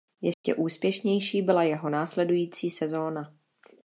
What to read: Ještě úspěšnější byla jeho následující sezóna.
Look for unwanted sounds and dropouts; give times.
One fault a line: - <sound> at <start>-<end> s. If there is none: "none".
- dropout at 0.3-0.4 s